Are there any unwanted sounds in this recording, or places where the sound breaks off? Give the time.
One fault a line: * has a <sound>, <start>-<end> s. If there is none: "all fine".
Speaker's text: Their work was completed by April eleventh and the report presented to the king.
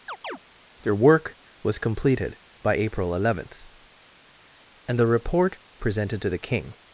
* has a chirp, 0.1-0.4 s